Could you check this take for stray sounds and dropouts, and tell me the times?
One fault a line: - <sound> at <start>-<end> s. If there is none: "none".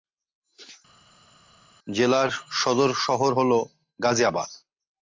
none